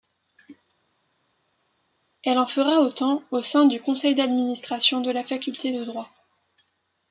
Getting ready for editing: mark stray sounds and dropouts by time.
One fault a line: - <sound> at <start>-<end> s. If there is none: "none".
none